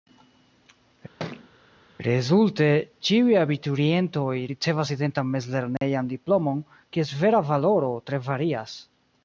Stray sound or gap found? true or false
true